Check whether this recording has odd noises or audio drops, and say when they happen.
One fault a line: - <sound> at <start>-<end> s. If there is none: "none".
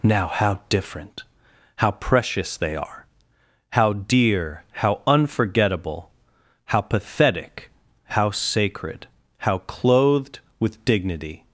none